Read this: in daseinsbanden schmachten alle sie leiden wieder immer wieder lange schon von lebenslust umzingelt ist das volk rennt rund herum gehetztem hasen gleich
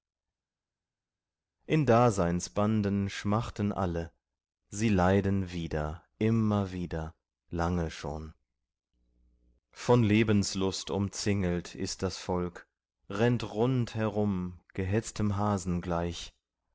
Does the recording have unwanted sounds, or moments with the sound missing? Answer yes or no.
no